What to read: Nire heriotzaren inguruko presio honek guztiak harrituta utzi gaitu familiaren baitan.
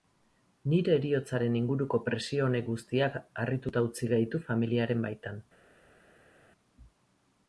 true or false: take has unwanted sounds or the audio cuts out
false